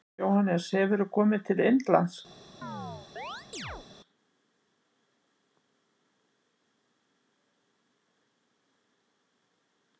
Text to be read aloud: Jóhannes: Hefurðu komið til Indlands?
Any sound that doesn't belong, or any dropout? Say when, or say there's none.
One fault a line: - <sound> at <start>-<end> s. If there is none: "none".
- chirp at 2.6-3.9 s